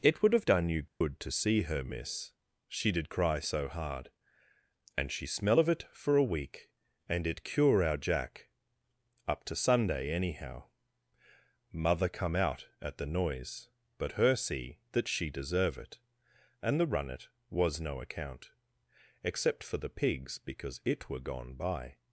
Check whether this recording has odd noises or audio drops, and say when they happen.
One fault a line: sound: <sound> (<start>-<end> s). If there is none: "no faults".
sound: dropout (0.9-1.0 s)